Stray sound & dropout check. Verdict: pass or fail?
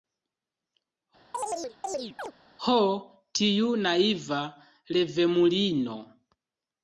fail